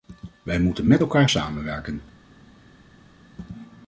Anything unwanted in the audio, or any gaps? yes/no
no